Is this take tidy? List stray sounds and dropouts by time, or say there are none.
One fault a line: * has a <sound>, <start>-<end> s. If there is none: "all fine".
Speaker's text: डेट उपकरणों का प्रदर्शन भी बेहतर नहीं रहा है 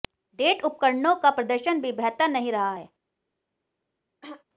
* has a throat clearing, 4.2-4.4 s